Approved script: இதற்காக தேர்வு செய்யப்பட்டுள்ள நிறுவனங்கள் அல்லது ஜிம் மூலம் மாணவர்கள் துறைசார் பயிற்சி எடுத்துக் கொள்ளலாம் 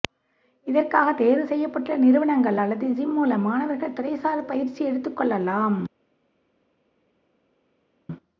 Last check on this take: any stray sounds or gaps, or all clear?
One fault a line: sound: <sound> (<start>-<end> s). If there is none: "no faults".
no faults